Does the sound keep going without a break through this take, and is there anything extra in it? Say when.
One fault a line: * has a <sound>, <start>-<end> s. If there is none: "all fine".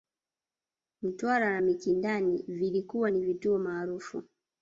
all fine